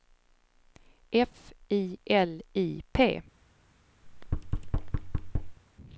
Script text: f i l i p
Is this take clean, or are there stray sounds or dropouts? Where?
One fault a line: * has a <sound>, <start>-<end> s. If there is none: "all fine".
* has a thud, 4.0-5.6 s